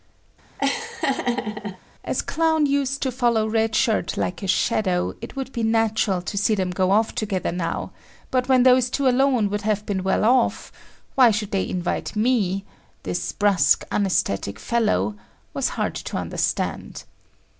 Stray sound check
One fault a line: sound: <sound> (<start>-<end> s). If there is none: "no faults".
sound: laugh (0.6-1.8 s)